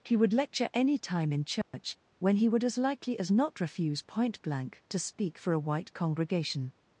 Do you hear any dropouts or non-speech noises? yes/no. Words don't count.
yes